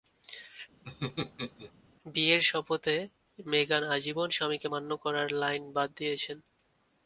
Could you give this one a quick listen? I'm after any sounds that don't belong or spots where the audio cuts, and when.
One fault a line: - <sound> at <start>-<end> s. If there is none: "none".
- laugh at 0.8-1.7 s